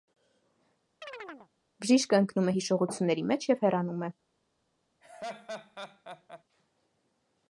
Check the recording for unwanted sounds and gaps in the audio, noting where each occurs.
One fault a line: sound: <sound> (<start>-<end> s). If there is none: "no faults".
sound: chirp (1.0-1.5 s)
sound: laugh (5.0-6.4 s)